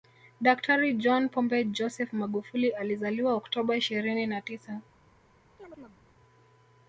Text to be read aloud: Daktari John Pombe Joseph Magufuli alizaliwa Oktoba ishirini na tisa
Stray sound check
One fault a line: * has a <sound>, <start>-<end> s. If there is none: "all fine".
* has a chirp, 5.6-6.0 s